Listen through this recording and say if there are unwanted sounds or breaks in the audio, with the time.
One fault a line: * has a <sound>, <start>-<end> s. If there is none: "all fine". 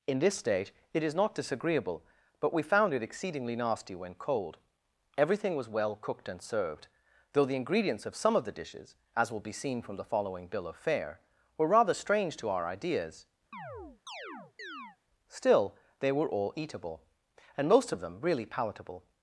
* has a chirp, 13.5-15.0 s